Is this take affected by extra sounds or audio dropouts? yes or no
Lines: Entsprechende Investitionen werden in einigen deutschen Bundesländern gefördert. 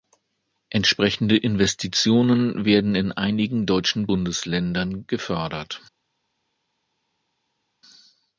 no